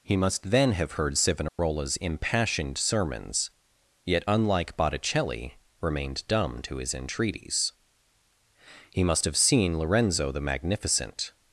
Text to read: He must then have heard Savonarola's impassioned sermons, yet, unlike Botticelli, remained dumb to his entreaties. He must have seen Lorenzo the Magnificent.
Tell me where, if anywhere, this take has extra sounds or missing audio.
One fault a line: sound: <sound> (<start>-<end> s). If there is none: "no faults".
sound: dropout (1.5-1.6 s)